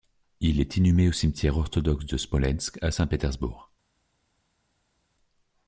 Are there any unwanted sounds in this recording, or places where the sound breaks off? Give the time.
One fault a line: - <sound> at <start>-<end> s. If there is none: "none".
none